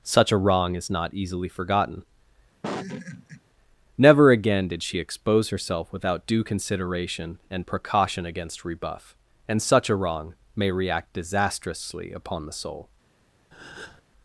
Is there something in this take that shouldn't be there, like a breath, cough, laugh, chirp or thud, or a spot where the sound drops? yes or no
yes